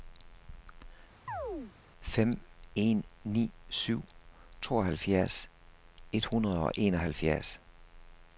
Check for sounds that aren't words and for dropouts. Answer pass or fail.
fail